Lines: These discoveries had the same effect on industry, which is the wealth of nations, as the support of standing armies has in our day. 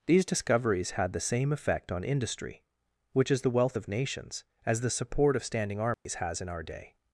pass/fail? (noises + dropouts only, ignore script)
fail